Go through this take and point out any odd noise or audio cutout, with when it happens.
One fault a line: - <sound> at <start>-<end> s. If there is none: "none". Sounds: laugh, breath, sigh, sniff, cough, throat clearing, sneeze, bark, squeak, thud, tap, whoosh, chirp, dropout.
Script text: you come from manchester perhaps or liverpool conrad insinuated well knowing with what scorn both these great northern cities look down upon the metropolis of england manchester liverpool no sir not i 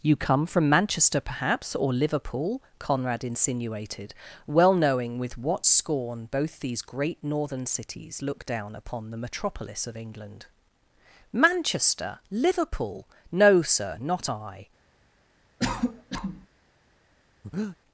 - cough at 15.6-16.5 s
- breath at 17.4-17.8 s